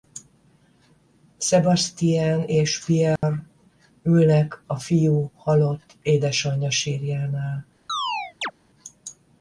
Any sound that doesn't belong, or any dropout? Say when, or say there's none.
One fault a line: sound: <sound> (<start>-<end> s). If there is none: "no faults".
sound: dropout (3.2-3.2 s)
sound: chirp (7.9-8.5 s)